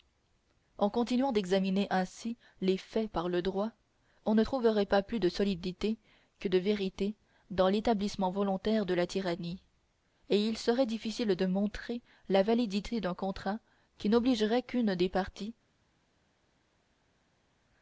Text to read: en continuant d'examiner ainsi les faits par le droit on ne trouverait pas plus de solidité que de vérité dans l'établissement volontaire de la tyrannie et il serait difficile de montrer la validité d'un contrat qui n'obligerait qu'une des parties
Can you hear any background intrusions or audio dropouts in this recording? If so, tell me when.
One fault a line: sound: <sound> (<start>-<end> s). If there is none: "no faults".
no faults